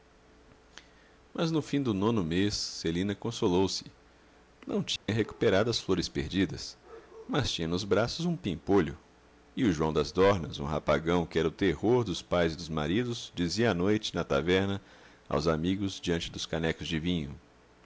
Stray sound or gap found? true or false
true